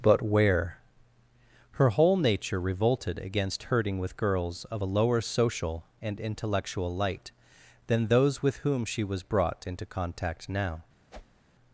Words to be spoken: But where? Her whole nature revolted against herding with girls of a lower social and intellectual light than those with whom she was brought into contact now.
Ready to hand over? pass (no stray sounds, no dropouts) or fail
fail